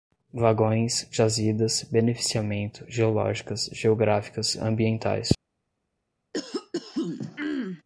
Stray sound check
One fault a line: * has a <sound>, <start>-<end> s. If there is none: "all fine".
* has a throat clearing, 6.3-7.8 s